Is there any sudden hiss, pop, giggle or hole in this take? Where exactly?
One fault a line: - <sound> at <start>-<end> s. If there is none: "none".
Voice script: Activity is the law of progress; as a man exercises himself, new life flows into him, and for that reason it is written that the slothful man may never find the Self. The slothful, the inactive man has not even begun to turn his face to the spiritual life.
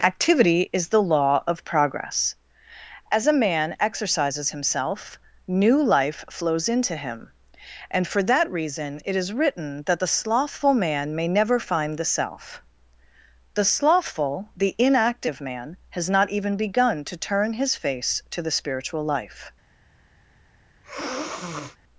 - sniff at 20.8-21.8 s